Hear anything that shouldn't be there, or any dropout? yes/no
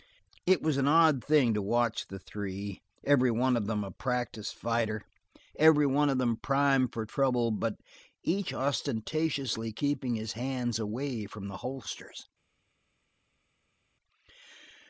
no